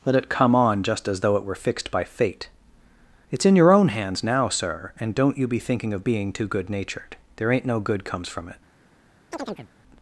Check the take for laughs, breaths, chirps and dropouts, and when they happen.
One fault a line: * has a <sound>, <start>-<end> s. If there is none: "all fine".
* has a chirp, 9.3-9.7 s